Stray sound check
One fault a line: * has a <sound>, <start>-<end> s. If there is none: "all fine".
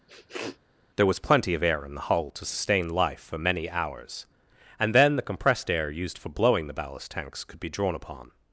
* has a sniff, 0.1-0.6 s